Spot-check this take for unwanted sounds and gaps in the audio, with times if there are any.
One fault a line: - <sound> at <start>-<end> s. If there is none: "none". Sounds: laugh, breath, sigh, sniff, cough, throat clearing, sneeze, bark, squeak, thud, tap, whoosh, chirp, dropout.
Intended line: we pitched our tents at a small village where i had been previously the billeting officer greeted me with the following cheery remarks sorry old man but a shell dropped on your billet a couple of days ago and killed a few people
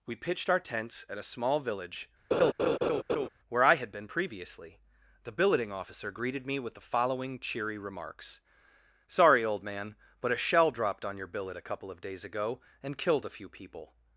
- laugh at 2.3-3.3 s